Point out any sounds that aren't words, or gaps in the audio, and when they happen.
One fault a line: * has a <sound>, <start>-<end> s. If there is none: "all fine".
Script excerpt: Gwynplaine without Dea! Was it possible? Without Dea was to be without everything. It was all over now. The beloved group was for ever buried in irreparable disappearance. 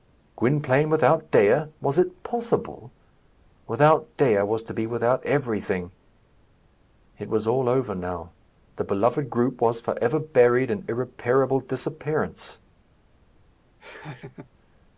* has a laugh, 13.8-14.5 s